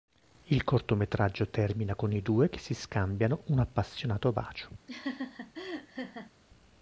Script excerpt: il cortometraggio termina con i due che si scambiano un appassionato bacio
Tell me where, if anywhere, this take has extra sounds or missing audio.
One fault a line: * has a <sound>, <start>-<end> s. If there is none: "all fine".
* has a laugh, 4.9-6.3 s